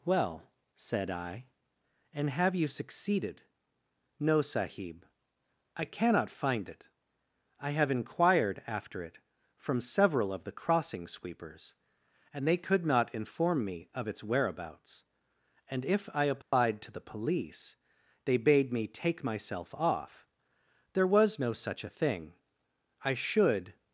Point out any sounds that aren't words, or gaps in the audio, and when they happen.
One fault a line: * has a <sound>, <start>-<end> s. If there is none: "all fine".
* has a dropout, 16.4-16.5 s